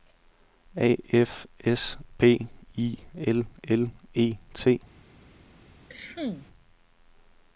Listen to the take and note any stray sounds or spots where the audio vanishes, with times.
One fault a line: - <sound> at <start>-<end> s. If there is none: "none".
- cough at 5.9-6.5 s